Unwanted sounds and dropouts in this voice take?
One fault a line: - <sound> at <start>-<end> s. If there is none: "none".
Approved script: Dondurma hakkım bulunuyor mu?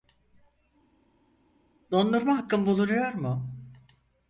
none